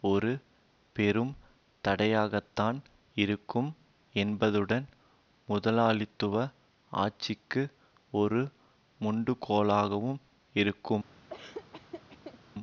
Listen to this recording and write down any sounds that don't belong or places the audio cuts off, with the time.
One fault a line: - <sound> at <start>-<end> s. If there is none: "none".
- laugh at 11.3-12.4 s